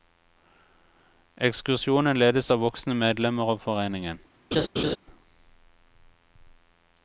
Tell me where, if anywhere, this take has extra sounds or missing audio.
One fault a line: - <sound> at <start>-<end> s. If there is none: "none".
- laugh at 4.5-5.0 s